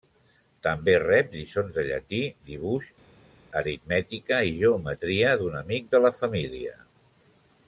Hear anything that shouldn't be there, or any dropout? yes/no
no